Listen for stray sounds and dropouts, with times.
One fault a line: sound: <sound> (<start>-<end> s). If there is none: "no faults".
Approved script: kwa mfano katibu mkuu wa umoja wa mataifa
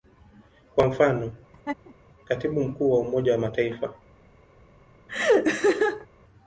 sound: laugh (1.5-2.0 s)
sound: laugh (5.1-6.1 s)